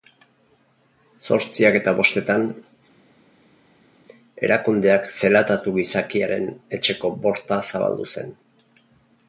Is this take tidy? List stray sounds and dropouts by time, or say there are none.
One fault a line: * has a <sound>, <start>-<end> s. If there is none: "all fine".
all fine